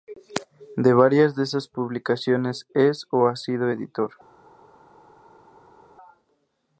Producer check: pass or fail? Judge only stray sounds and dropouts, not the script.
pass